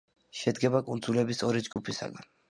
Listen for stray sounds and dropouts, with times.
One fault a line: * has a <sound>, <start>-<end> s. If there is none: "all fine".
* has a dropout, 1.7-1.8 s